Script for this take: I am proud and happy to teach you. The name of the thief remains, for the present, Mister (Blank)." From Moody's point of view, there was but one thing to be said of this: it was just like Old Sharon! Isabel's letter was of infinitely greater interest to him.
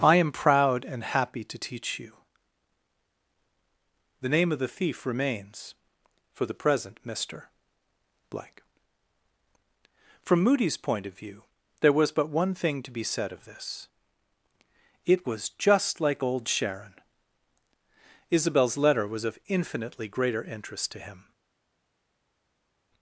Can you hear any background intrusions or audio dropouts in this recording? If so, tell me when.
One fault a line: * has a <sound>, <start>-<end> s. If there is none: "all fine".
all fine